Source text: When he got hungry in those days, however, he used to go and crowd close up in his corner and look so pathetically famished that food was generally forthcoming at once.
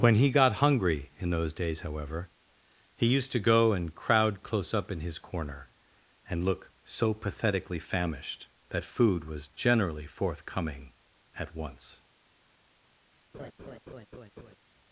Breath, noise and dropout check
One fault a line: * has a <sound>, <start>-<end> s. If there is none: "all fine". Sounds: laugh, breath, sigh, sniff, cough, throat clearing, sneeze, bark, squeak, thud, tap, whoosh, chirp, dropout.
* has a laugh, 13.3-14.6 s